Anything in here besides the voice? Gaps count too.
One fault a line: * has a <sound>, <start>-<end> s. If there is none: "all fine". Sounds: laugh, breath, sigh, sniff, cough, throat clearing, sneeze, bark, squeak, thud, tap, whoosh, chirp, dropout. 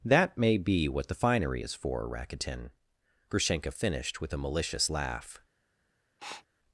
* has a sniff, 6.2-6.5 s